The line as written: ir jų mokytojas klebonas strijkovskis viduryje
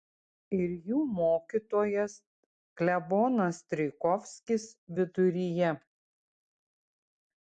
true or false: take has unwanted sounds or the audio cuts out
false